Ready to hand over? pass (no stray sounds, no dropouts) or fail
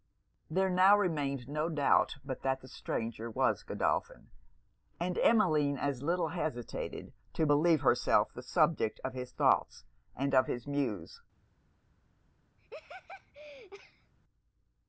fail